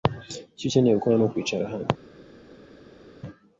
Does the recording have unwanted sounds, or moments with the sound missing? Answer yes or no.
no